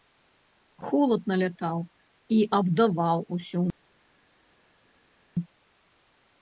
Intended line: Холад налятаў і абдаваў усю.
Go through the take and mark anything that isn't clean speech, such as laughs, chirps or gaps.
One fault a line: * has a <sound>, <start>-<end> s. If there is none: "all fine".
all fine